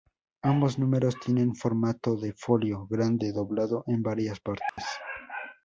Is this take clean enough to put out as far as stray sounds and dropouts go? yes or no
no